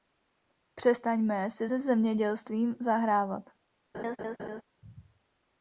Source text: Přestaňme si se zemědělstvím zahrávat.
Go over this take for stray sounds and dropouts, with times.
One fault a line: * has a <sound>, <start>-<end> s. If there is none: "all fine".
* has a laugh, 3.9-4.6 s